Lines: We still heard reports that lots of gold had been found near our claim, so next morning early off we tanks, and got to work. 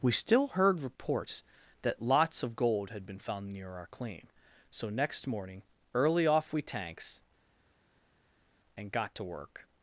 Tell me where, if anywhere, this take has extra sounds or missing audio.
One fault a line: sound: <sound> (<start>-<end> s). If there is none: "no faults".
no faults